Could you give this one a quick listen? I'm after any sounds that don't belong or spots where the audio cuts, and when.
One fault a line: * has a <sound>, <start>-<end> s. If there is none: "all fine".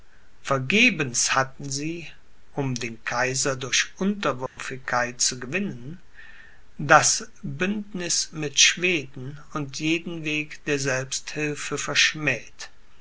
* has a dropout, 4.5-4.6 s